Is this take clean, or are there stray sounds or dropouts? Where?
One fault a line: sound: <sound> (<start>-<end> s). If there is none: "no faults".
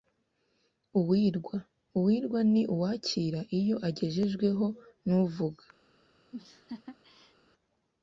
sound: laugh (6.3-7.4 s)